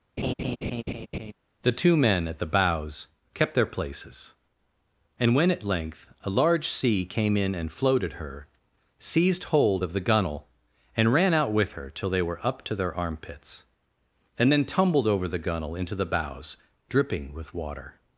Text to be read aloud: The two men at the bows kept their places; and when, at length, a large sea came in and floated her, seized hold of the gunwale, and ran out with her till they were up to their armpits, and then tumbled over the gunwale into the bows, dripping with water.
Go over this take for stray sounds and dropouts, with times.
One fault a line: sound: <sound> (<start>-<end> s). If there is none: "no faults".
sound: laugh (0.2-1.3 s)